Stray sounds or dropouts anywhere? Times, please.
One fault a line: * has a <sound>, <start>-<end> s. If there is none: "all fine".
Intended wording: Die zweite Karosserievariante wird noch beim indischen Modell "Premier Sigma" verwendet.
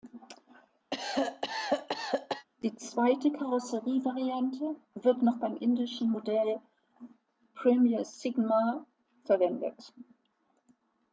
* has a cough, 0.9-2.4 s